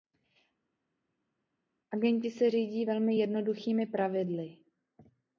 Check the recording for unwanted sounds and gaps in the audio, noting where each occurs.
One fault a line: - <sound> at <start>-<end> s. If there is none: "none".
none